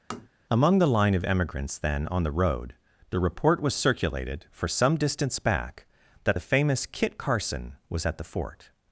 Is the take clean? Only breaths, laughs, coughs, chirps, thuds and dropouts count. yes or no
no